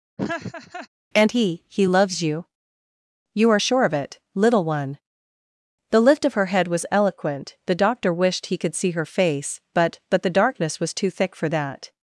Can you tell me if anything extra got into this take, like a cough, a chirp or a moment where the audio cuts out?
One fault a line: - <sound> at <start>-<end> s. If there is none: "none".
- laugh at 0.2-0.9 s